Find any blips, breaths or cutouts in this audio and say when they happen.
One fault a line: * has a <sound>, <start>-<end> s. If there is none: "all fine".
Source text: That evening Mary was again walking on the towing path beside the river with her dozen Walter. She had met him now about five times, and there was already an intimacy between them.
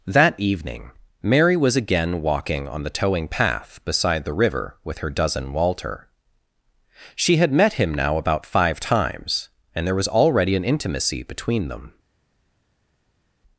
all fine